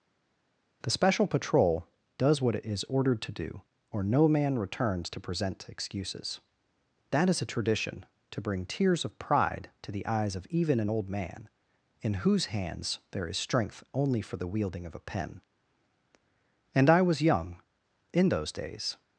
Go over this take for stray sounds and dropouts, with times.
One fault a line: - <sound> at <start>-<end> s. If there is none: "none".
none